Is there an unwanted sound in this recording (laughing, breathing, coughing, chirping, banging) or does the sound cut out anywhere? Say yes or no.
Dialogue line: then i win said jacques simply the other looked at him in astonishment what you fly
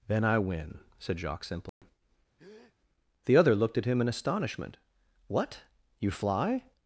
yes